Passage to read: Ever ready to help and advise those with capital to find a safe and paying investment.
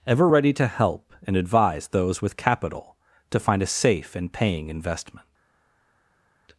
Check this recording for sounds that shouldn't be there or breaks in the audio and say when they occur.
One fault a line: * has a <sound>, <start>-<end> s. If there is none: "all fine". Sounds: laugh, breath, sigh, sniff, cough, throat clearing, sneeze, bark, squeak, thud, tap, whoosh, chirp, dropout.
all fine